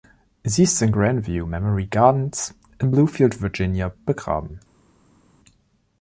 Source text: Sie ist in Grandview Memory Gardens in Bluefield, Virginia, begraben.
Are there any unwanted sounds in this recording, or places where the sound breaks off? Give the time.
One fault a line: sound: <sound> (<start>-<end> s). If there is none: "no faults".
no faults